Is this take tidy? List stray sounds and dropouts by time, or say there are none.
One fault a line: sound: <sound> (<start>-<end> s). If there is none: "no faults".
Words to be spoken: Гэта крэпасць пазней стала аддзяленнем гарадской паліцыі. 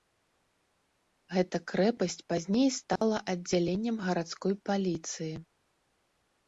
sound: dropout (3.0-3.0 s)